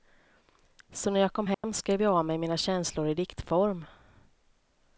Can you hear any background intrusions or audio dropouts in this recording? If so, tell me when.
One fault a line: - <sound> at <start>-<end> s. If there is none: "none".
- dropout at 1.5-1.6 s